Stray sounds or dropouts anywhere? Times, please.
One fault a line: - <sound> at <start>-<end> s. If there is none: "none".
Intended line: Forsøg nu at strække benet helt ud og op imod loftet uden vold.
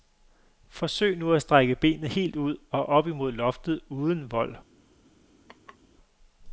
- laugh at 5.5-5.8 s